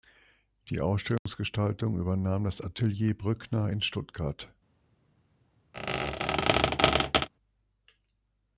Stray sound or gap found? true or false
true